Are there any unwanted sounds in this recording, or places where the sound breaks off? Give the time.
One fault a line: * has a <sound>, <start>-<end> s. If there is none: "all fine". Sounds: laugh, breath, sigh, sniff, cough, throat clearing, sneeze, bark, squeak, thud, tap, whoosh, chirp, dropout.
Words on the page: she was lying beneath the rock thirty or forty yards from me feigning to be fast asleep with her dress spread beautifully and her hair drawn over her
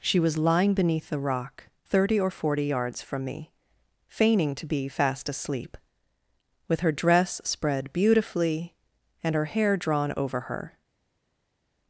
all fine